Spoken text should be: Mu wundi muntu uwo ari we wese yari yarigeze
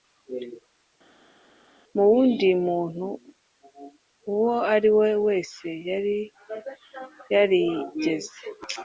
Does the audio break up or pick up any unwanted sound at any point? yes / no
no